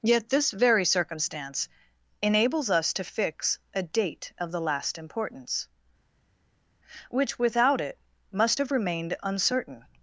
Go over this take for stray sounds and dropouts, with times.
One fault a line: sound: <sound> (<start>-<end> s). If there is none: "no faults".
no faults